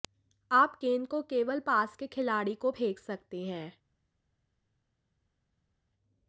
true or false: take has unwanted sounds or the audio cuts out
false